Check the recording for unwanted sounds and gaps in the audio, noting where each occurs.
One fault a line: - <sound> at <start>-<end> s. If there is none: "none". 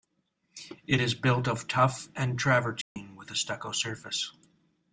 - dropout at 2.8-3.0 s